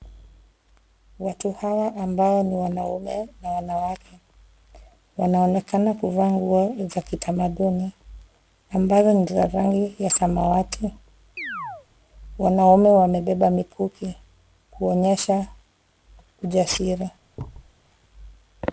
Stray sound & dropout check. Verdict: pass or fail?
fail